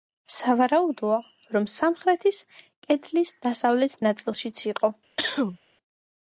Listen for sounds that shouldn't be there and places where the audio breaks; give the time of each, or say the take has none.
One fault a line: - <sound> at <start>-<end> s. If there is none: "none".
- cough at 5.2-5.6 s